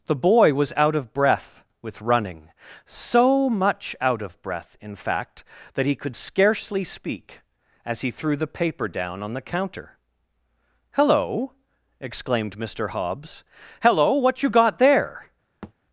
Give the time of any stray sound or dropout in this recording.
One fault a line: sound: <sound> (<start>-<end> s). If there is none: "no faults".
sound: thud (15.6-15.7 s)